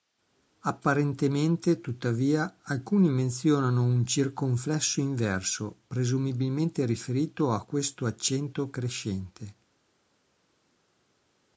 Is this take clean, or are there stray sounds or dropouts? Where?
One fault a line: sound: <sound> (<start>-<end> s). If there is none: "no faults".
no faults